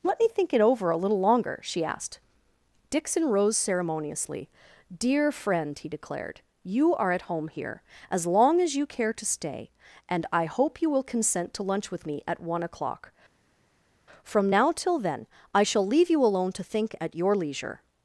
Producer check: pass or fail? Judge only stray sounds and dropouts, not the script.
pass